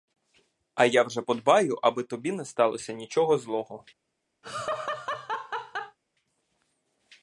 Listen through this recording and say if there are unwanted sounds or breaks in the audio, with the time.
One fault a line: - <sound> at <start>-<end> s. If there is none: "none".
- laugh at 4.4-6.0 s